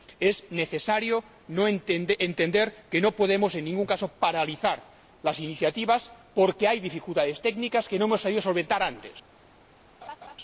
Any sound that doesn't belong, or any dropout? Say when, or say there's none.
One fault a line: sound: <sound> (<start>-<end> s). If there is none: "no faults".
sound: laugh (10.0-10.4 s)